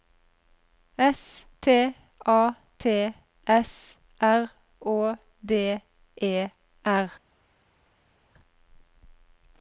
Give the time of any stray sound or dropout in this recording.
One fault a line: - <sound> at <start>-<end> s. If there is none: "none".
none